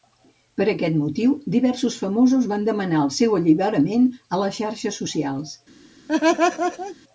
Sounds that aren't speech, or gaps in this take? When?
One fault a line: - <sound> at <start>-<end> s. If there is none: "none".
- laugh at 6.1-7.0 s